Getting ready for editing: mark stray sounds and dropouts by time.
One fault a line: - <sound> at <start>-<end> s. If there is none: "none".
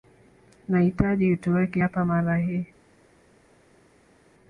none